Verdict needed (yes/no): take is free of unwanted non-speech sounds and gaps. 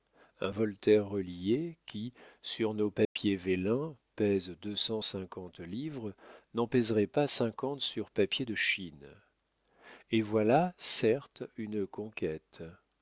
no